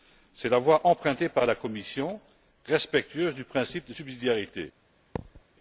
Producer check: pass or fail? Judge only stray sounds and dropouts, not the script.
fail